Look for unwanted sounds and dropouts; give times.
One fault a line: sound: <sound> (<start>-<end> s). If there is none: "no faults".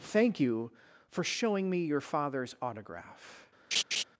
sound: laugh (3.7-4.0 s)